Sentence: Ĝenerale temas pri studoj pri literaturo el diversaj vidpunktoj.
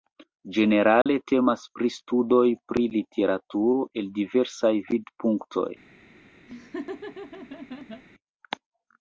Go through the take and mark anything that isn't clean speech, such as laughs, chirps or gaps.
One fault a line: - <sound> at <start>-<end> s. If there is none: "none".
- dropout at 1.0-1.1 s
- laugh at 6.5-8.0 s